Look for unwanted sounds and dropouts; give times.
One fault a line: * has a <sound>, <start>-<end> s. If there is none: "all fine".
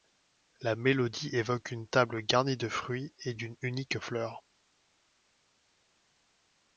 all fine